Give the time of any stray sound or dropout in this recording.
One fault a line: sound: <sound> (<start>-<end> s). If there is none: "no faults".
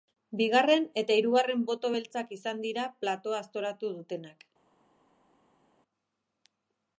no faults